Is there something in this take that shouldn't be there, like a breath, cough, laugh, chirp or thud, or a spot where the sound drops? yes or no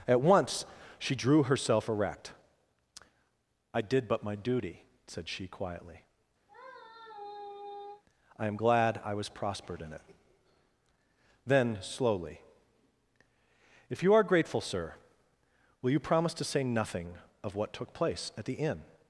yes